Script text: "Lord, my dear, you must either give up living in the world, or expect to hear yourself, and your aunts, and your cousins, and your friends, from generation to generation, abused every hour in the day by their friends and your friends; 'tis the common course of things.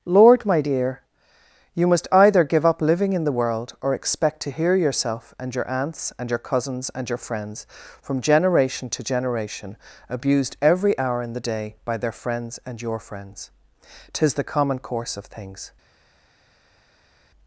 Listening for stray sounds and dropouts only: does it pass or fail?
pass